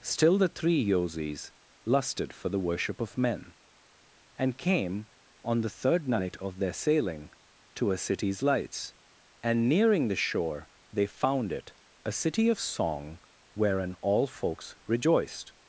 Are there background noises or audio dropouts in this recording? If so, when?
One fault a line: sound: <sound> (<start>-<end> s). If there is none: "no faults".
no faults